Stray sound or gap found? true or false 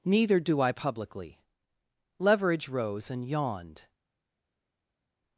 false